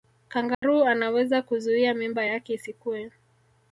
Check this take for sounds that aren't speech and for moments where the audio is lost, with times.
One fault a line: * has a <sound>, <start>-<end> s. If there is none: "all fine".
* has a dropout, 0.5-0.6 s